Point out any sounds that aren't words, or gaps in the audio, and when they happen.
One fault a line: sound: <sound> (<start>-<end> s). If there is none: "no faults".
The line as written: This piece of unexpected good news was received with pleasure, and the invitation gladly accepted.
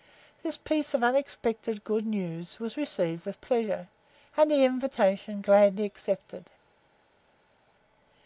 no faults